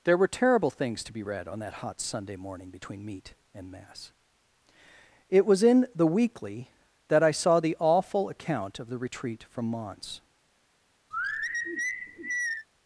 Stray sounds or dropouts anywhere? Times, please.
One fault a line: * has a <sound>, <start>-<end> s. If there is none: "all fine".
* has a sigh, 11.1-12.7 s